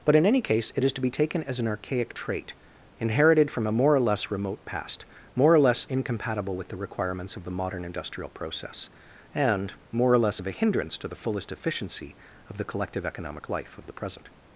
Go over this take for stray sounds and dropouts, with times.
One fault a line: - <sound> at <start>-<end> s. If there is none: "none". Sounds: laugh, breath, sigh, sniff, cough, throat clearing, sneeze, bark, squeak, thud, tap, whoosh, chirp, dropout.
none